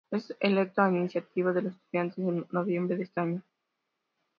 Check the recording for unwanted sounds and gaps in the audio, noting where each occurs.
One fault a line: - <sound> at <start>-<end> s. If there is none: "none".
none